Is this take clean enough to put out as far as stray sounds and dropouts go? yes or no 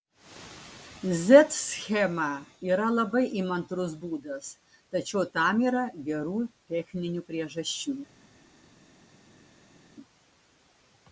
yes